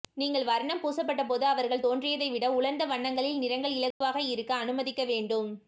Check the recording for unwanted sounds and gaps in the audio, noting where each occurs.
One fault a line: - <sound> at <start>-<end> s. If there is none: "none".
- dropout at 3.9-4.0 s